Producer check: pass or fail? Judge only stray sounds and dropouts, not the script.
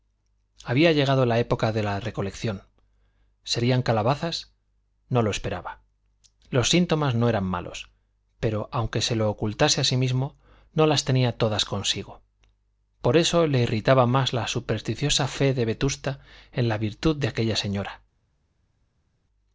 pass